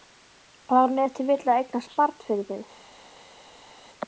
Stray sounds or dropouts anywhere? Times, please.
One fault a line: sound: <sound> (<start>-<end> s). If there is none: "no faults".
no faults